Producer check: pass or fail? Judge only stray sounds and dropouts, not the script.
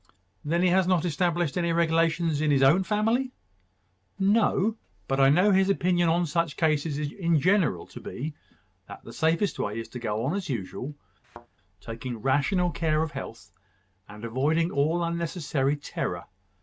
fail